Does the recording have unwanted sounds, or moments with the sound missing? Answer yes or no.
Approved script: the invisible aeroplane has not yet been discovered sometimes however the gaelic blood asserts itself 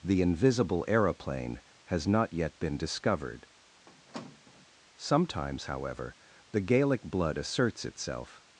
yes